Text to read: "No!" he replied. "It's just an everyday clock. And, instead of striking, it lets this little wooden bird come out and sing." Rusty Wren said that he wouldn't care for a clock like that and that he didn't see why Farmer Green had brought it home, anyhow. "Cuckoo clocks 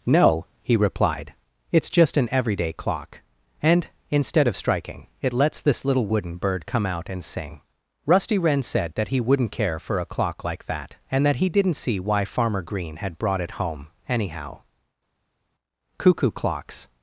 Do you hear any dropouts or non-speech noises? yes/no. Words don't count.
no